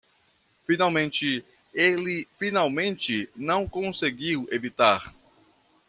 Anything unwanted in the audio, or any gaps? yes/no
no